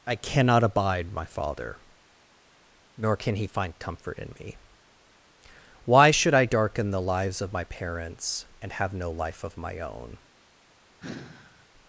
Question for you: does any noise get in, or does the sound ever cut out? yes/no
yes